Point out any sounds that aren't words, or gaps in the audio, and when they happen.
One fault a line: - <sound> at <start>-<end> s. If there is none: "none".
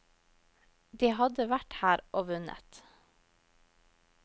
none